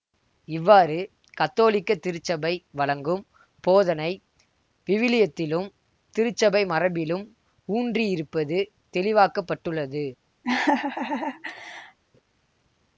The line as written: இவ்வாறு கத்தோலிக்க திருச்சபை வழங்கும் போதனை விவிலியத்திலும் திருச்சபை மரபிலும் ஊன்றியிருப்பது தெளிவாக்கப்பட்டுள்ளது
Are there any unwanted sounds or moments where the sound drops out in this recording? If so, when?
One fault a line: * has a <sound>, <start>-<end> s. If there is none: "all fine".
* has a laugh, 10.4-12.0 s